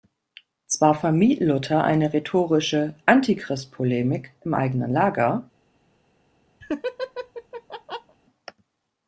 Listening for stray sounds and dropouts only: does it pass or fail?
fail